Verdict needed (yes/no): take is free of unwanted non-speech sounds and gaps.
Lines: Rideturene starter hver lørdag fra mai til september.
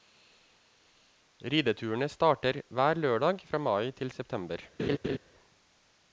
no